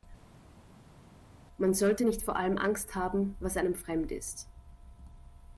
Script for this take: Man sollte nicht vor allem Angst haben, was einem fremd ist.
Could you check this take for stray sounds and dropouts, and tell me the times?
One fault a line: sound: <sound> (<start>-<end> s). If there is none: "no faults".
no faults